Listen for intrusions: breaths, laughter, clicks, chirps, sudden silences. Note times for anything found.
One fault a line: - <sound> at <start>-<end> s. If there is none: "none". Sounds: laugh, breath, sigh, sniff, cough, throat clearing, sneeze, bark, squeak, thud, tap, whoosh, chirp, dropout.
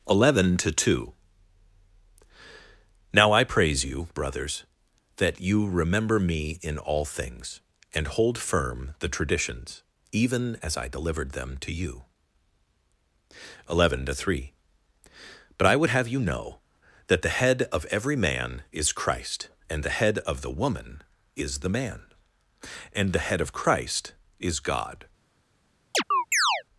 - chirp at 25.9-26.6 s